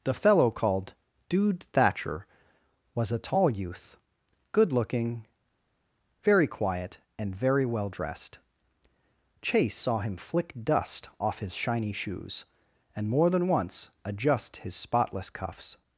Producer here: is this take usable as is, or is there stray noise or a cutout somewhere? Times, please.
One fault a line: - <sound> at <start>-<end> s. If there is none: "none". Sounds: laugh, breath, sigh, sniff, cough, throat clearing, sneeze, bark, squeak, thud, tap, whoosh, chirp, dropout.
none